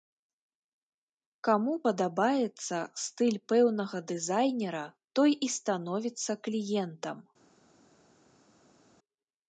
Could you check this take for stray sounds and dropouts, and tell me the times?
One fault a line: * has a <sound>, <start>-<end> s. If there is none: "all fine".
all fine